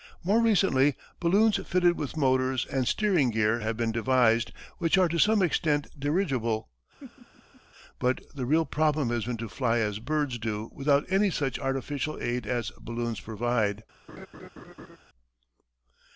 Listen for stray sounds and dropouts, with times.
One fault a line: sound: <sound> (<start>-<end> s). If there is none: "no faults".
sound: laugh (7.0-7.6 s)
sound: laugh (14.1-15.0 s)